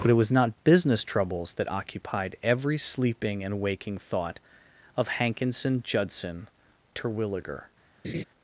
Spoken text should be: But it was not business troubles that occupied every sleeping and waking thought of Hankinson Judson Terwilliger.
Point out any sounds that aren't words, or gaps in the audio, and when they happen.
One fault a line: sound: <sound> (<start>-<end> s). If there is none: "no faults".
sound: laugh (8.0-8.2 s)